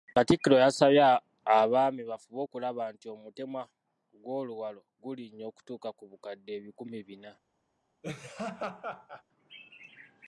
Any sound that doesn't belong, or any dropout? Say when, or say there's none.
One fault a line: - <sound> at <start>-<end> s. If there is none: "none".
- laugh at 8.0-9.2 s